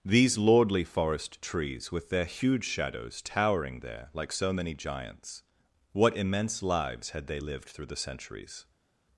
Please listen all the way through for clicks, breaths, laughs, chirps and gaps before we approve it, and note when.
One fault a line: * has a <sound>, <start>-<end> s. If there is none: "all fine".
all fine